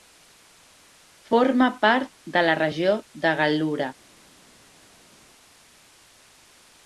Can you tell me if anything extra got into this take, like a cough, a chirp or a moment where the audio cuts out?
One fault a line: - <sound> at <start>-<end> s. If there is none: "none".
none